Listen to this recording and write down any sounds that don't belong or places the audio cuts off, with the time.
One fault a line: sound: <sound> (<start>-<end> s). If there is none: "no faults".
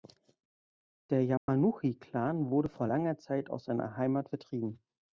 sound: dropout (1.4-1.5 s)